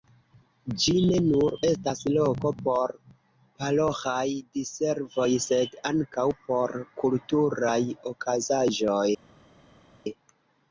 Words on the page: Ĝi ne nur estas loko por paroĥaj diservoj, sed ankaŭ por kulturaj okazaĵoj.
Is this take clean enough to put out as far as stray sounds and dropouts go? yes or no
yes